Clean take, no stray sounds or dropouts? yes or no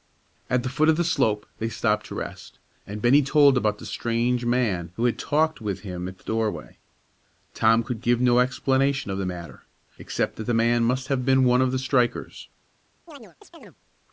no